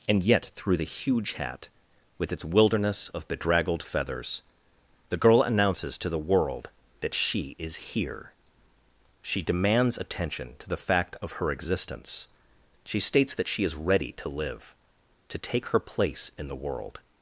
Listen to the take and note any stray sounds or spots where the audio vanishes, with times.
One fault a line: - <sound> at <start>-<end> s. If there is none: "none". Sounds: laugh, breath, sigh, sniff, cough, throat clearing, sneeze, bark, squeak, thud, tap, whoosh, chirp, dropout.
none